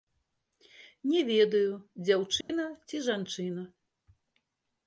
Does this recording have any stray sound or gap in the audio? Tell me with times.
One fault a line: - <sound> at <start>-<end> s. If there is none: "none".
- dropout at 2.4-2.5 s